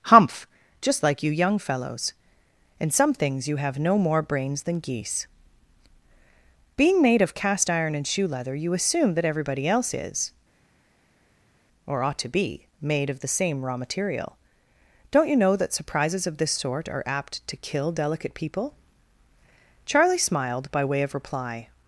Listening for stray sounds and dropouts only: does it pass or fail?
pass